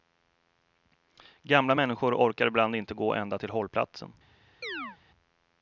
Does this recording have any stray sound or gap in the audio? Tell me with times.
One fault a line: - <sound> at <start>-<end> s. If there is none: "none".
- chirp at 4.6-5.0 s